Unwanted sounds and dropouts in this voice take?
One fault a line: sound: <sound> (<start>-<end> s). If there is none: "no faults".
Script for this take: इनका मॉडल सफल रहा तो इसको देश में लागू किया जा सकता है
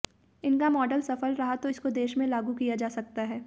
no faults